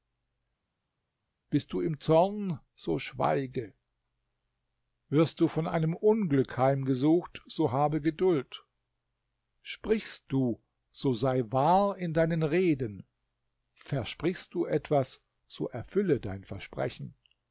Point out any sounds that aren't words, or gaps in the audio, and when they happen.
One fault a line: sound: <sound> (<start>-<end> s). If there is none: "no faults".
no faults